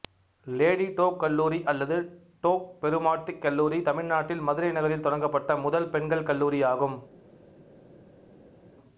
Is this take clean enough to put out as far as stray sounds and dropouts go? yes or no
yes